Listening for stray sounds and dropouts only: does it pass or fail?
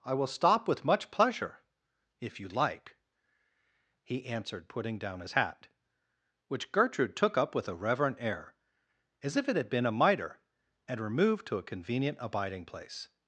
pass